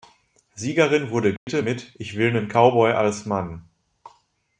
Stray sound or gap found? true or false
true